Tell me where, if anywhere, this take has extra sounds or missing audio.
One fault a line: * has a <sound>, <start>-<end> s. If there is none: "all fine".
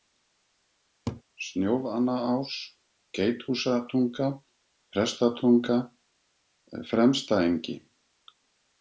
* has a laugh, 1.1-1.2 s